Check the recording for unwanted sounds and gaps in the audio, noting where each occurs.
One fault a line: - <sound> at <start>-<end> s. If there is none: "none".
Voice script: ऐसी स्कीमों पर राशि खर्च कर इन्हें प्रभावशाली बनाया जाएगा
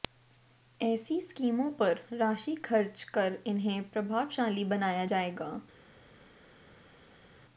none